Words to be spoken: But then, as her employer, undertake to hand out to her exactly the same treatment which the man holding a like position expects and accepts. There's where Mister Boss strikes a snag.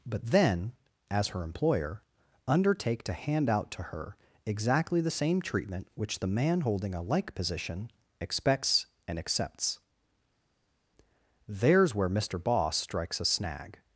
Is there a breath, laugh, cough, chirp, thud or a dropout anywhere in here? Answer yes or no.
no